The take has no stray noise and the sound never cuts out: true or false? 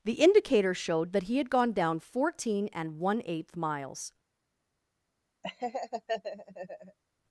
false